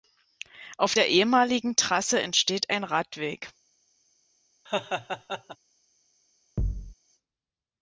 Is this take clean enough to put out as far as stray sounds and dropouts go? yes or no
no